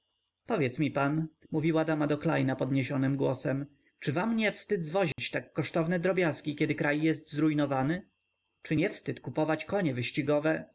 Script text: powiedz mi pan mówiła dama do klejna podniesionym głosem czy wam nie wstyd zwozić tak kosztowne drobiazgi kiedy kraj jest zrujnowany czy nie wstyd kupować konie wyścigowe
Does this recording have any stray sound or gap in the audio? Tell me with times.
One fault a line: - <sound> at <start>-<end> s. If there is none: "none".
- dropout at 5.1-5.2 s